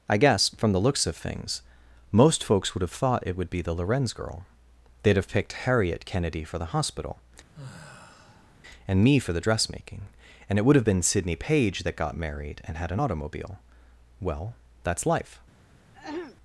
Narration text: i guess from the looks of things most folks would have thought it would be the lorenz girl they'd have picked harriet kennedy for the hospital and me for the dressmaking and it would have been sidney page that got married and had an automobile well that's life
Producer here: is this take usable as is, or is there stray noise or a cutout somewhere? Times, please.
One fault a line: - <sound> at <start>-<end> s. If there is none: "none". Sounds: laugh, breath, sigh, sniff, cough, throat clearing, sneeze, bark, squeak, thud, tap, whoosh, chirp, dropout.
- sigh at 7.5-8.6 s
- throat clearing at 15.9-16.4 s